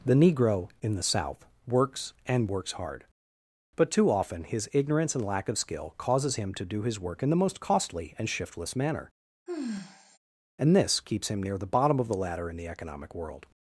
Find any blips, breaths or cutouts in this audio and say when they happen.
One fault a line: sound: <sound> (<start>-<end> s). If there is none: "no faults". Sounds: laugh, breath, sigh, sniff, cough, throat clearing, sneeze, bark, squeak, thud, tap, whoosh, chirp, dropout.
sound: sigh (9.5-10.2 s)